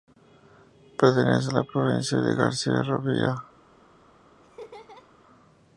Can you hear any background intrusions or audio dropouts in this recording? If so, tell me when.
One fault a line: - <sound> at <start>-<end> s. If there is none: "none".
- laugh at 4.4-5.1 s